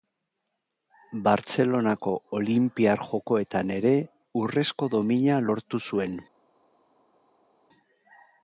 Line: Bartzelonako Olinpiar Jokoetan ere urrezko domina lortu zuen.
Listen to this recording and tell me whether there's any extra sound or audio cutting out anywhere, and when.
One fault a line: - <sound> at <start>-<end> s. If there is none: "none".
none